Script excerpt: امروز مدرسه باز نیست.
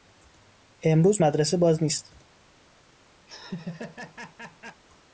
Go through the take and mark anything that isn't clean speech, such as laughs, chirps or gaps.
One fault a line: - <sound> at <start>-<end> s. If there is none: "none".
- laugh at 3.3-4.8 s